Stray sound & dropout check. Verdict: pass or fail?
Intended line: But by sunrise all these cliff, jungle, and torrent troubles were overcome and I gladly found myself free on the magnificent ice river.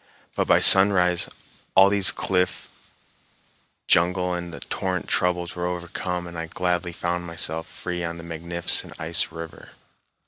pass